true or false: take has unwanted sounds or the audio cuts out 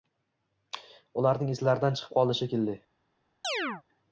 true